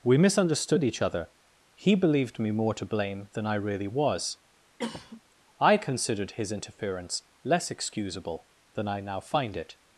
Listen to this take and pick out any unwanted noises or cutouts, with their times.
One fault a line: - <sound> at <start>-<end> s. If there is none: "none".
- cough at 4.8-5.2 s